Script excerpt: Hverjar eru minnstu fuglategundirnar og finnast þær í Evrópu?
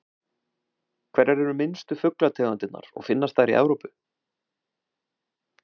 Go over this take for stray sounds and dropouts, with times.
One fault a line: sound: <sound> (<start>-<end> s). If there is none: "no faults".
no faults